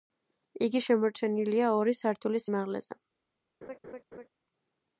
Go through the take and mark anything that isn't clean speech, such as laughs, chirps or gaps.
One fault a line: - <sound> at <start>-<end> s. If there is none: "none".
- laugh at 3.6-4.3 s